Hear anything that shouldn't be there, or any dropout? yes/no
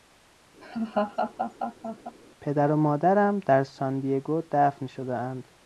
yes